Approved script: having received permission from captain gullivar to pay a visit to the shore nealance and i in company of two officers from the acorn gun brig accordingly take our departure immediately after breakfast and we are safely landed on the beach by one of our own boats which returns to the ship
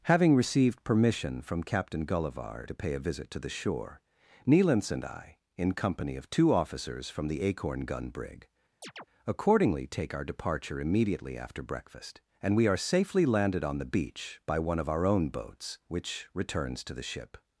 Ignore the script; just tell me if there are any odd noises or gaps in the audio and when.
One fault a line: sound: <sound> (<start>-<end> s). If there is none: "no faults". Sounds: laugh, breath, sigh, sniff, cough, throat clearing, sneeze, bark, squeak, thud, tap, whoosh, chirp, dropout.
sound: chirp (8.8-9.0 s)